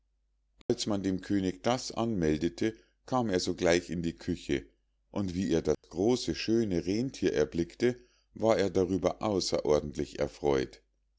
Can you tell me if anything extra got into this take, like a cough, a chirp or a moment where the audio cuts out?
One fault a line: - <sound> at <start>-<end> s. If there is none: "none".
- dropout at 0.6-0.7 s
- dropout at 5.7-5.8 s